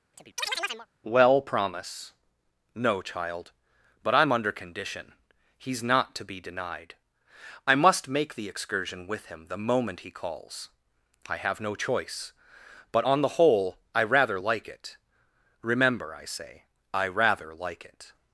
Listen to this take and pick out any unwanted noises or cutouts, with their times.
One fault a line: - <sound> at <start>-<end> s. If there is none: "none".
- chirp at 0.1-0.9 s